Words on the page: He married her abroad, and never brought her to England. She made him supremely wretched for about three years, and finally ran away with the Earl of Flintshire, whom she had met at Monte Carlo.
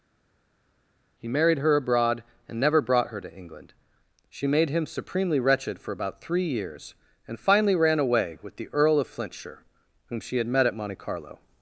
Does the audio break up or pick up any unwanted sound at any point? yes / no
no